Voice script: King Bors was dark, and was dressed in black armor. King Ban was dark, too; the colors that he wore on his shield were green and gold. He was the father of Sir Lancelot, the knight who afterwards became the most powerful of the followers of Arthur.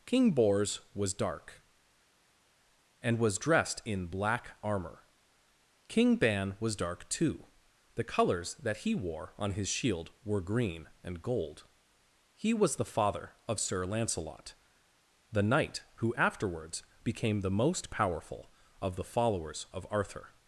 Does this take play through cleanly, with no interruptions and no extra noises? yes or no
yes